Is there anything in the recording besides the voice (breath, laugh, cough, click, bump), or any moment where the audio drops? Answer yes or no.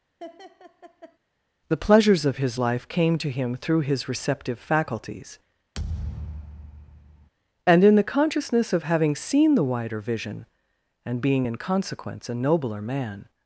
yes